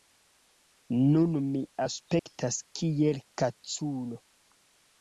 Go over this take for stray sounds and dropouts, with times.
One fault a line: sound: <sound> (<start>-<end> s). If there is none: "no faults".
sound: dropout (2.2-2.3 s)